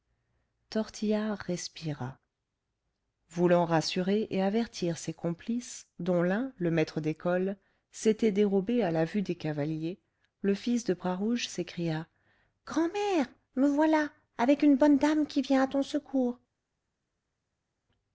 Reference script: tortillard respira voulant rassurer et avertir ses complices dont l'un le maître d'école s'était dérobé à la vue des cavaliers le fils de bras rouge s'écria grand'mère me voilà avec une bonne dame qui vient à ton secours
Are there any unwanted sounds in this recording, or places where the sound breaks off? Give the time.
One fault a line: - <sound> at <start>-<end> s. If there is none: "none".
none